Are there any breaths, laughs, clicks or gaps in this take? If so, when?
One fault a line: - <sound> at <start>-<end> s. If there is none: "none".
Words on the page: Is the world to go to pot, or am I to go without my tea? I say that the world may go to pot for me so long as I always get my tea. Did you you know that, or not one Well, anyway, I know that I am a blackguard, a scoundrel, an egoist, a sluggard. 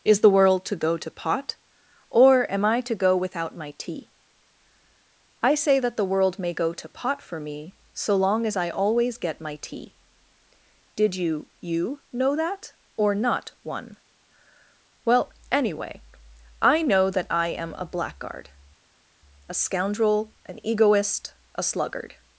none